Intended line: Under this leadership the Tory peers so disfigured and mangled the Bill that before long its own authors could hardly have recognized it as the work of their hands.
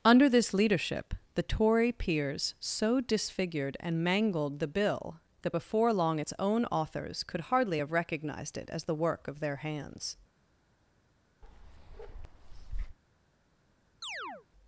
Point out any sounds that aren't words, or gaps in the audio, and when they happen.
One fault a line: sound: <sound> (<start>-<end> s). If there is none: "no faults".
sound: bark (11.4-13.0 s)
sound: chirp (14.0-14.5 s)